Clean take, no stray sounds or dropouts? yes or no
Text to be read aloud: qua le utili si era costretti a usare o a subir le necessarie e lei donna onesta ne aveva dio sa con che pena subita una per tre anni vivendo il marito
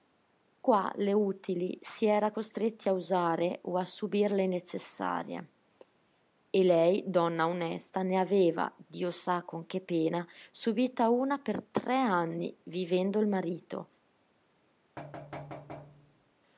no